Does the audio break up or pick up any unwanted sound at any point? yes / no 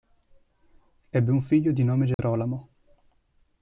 yes